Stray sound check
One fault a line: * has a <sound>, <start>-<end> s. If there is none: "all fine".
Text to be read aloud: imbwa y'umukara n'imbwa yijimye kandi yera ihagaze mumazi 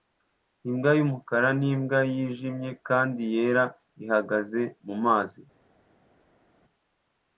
all fine